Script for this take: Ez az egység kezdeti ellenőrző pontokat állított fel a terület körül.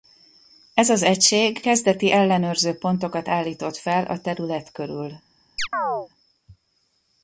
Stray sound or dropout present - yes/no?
yes